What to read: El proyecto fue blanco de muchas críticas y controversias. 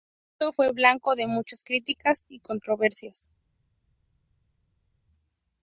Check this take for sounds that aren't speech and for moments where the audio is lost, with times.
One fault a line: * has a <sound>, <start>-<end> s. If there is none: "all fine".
all fine